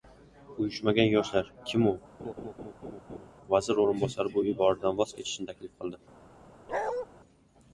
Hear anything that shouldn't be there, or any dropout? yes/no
yes